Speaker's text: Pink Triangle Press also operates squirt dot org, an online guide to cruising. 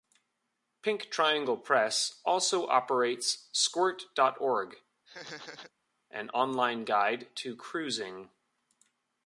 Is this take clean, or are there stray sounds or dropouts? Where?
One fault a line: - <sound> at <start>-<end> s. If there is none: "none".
- laugh at 5.1-5.7 s